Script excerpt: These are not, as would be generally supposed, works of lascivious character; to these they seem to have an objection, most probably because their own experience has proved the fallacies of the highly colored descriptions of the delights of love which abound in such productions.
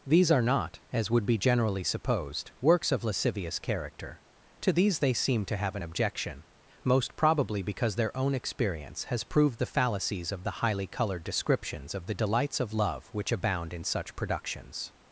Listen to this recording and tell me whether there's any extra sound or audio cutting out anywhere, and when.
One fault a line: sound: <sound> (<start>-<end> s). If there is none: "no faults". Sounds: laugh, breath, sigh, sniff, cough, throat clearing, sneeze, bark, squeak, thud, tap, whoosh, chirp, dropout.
no faults